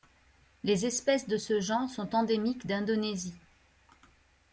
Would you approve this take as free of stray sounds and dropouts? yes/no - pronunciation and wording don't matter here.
yes